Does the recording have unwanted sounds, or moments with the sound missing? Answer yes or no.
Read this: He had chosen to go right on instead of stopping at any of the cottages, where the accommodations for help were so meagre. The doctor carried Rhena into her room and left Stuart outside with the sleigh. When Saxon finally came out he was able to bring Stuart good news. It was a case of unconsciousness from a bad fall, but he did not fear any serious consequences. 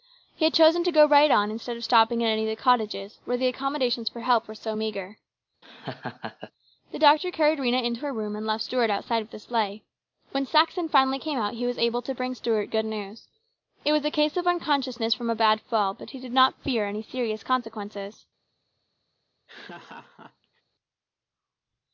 yes